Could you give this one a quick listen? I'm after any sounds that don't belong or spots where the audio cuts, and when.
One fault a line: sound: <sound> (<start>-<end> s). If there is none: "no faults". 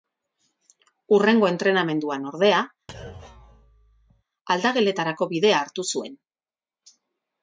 sound: thud (2.9-4.2 s)